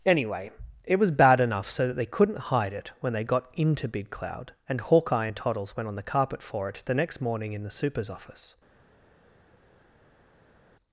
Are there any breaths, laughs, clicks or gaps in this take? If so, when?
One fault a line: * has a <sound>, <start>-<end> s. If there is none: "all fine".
all fine